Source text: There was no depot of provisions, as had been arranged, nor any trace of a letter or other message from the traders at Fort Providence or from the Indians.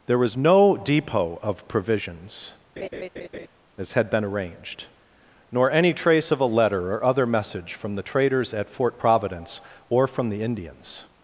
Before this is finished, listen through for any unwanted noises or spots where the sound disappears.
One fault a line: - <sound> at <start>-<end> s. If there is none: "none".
- laugh at 2.8-3.5 s